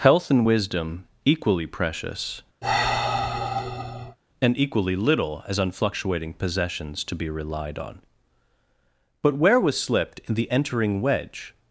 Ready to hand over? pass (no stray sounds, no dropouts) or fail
fail